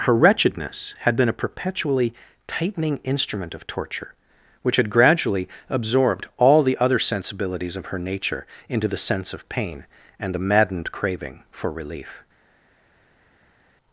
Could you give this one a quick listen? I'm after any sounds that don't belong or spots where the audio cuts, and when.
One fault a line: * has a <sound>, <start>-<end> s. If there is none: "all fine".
all fine